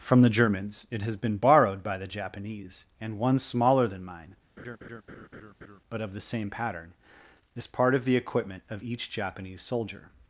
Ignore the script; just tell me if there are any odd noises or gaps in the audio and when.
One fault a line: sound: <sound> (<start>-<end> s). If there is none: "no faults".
sound: laugh (4.6-5.8 s)